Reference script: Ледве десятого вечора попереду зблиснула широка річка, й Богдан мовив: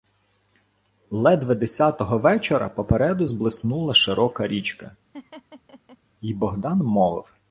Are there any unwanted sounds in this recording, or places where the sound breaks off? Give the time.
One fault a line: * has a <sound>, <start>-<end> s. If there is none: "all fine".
* has a laugh, 5.1-6.0 s